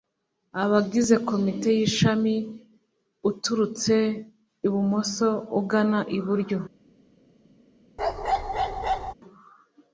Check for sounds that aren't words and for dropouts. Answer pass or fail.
fail